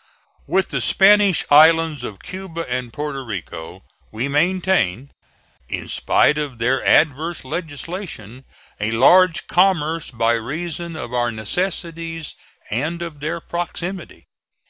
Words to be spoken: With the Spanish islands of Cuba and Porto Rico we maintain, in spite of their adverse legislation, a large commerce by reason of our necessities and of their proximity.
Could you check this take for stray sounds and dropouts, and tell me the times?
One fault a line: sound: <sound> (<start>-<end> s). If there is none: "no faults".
no faults